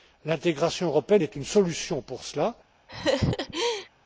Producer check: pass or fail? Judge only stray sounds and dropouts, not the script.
fail